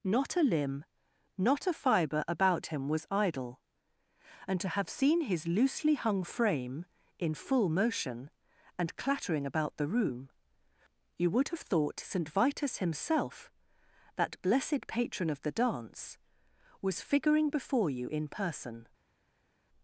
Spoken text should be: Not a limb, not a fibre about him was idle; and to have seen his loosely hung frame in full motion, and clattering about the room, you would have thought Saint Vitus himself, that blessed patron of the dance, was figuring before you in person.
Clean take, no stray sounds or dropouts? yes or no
yes